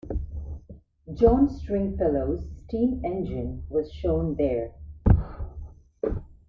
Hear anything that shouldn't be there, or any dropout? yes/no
no